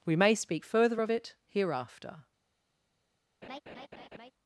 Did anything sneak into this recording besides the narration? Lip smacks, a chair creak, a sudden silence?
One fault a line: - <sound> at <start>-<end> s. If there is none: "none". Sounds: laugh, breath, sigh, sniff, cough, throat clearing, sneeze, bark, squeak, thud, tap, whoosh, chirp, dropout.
- laugh at 3.4-4.3 s